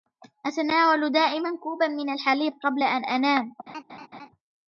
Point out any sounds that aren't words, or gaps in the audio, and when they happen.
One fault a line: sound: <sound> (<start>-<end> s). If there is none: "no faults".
sound: laugh (3.7-4.3 s)